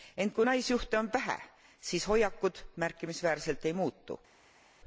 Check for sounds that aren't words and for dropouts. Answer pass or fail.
pass